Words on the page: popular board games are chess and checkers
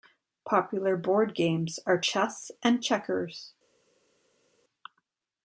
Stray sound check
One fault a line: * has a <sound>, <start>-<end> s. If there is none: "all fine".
all fine